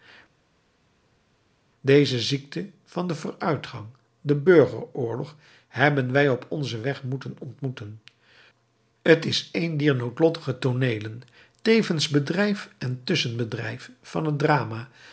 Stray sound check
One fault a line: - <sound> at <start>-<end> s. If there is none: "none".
none